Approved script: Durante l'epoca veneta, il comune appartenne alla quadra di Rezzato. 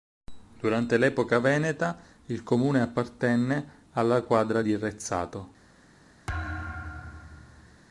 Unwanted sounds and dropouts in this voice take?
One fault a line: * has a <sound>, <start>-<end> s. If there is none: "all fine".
* has a thud, 6.3-7.8 s